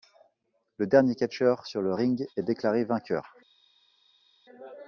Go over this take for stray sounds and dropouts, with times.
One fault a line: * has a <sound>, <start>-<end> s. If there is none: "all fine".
all fine